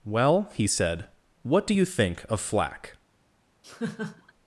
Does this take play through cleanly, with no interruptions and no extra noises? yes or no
no